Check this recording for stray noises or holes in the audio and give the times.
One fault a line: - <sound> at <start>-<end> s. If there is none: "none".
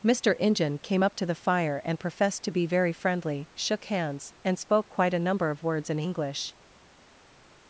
none